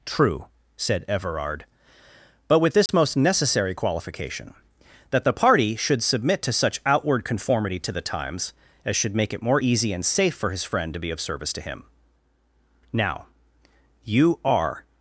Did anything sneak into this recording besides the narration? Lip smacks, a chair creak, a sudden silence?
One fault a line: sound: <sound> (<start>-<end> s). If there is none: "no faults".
sound: dropout (2.9-2.9 s)